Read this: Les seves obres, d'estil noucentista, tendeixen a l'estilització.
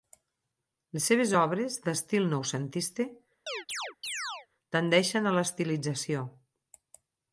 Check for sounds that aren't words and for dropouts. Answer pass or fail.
fail